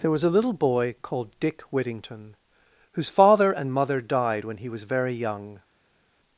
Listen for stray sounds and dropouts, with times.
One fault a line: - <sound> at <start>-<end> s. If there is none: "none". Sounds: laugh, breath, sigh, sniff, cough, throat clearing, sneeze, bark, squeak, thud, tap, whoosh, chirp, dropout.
none